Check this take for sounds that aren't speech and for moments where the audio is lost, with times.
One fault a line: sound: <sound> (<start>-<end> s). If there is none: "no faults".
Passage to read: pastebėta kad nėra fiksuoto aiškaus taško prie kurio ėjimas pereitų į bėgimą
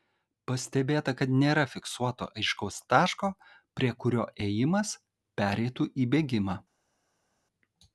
no faults